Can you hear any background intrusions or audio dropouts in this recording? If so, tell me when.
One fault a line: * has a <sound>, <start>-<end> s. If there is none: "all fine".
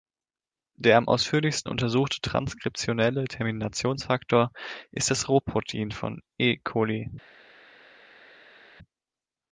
all fine